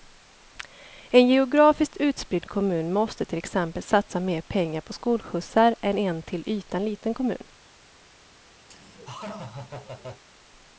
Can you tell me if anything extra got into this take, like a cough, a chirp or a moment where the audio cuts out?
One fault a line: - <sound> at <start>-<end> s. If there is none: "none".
- laugh at 8.7-10.2 s